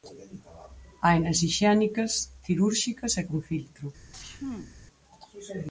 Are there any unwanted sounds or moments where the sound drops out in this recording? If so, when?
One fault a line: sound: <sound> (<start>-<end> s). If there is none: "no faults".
sound: sneeze (4.1-4.8 s)